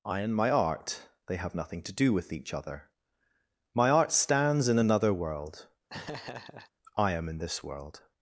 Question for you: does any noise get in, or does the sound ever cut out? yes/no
yes